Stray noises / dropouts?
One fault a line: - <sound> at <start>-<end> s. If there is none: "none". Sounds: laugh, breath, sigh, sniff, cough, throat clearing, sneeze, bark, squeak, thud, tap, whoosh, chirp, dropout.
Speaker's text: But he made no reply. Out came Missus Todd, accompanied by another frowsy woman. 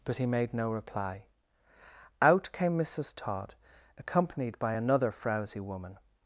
none